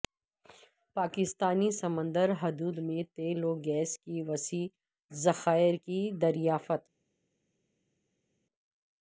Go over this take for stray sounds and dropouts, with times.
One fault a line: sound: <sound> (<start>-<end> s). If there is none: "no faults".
no faults